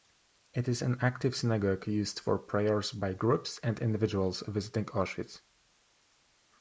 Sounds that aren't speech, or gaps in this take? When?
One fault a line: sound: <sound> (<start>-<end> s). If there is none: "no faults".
no faults